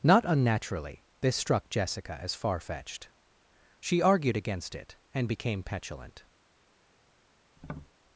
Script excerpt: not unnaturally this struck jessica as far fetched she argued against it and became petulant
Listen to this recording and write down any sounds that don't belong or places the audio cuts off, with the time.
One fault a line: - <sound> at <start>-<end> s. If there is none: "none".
- tap at 7.6-7.9 s